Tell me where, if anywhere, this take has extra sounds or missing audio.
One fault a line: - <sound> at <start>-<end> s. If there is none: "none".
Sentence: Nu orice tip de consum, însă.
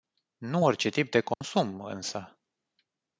- dropout at 1.3-1.4 s